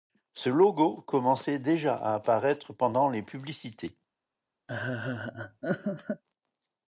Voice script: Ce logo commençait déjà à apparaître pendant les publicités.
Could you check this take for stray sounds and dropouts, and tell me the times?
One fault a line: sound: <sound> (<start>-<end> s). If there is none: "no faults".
sound: laugh (4.7-6.2 s)